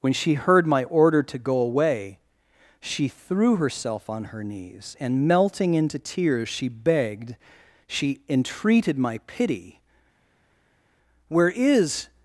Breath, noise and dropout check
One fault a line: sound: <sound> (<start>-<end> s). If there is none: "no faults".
no faults